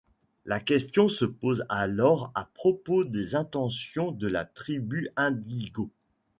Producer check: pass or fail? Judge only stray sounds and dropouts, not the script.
pass